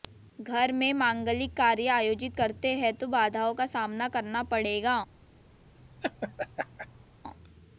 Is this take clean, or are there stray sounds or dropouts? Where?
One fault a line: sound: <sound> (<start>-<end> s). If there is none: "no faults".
sound: laugh (5.8-7.1 s)